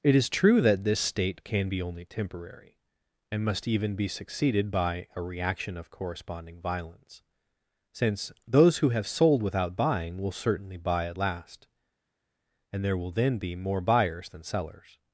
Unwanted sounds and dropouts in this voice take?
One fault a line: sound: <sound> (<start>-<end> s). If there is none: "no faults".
no faults